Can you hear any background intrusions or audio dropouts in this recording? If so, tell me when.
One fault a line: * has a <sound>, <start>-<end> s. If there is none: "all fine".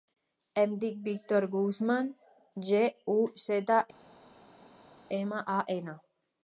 all fine